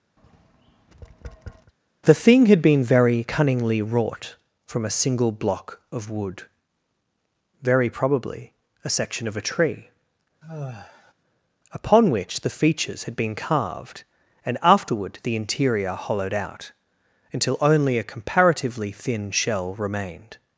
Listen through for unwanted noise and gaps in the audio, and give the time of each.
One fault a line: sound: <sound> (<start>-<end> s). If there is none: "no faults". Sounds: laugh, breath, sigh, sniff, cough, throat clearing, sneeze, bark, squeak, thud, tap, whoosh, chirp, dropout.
sound: tap (0.2-1.7 s)
sound: sigh (10.4-11.1 s)